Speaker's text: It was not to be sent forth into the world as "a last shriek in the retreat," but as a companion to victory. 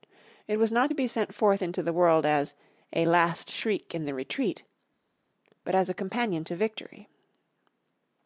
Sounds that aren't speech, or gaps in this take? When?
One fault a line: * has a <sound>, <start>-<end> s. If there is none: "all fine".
all fine